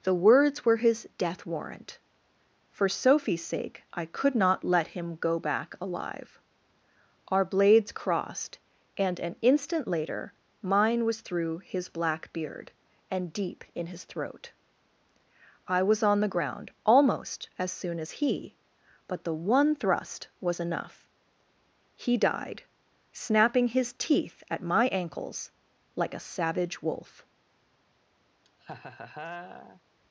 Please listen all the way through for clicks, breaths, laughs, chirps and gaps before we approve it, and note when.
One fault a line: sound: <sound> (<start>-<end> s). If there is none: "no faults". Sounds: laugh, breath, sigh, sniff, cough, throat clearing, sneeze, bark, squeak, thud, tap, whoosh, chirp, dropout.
sound: laugh (28.4-29.8 s)